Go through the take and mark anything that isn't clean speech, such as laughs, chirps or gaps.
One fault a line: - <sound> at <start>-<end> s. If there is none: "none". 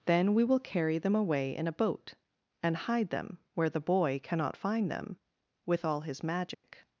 - dropout at 6.5-6.6 s